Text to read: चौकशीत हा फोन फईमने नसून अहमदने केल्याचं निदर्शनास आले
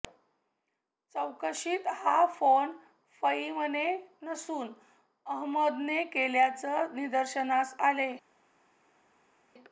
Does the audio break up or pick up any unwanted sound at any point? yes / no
no